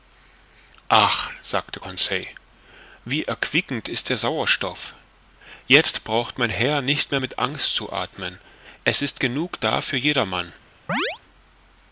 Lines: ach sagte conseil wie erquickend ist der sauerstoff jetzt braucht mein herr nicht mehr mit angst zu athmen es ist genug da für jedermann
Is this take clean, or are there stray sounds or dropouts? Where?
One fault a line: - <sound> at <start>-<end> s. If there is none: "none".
- chirp at 10.9-11.2 s